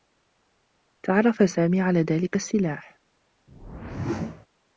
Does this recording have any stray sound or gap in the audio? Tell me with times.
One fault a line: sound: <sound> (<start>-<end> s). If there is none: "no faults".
sound: whoosh (3.5-4.5 s)